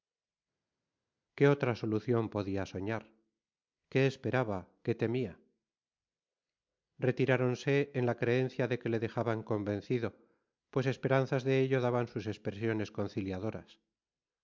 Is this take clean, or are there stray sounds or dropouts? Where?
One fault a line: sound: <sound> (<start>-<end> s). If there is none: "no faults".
no faults